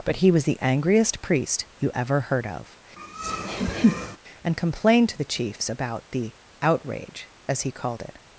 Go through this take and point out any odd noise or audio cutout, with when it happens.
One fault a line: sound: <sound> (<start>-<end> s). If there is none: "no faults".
sound: laugh (3.0-4.2 s)